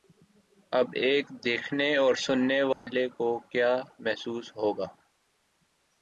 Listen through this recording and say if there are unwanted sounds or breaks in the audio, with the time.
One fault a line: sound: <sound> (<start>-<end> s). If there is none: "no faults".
sound: dropout (2.7-2.9 s)